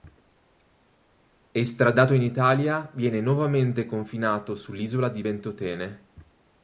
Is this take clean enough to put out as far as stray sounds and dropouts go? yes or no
yes